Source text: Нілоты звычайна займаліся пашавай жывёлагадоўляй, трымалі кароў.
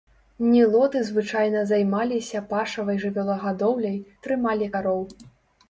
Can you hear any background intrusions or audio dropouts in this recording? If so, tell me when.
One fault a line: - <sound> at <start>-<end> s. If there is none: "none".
none